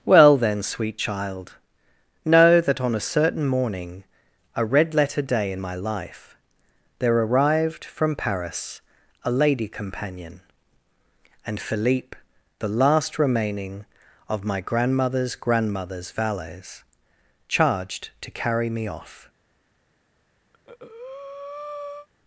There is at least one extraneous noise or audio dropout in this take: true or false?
true